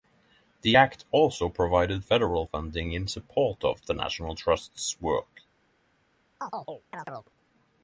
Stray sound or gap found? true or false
true